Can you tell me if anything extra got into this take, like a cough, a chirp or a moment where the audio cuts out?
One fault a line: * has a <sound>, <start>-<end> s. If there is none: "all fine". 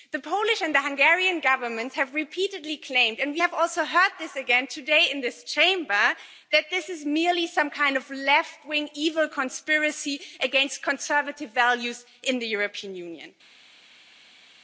all fine